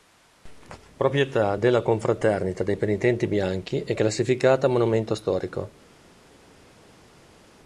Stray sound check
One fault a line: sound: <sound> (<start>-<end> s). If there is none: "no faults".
no faults